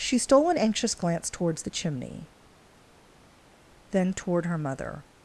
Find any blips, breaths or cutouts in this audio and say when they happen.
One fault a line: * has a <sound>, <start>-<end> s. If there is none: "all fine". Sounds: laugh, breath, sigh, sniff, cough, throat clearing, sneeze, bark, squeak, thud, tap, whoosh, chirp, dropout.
all fine